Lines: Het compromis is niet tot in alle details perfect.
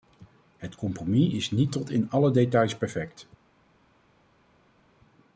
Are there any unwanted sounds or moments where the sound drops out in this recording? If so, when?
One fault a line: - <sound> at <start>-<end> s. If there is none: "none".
none